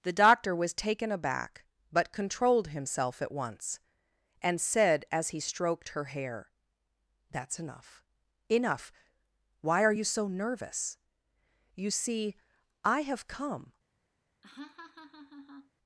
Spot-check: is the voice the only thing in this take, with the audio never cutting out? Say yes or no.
no